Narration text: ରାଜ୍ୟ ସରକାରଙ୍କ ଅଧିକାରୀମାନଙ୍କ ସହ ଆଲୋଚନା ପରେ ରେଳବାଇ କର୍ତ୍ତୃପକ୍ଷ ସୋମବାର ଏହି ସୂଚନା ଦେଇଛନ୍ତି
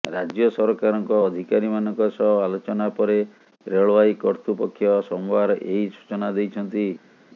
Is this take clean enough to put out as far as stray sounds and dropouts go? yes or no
yes